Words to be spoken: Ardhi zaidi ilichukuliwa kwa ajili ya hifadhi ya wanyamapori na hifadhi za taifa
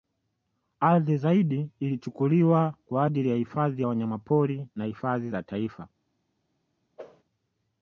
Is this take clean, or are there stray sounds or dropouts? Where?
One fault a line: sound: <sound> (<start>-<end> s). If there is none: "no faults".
sound: whoosh (7.0-7.2 s)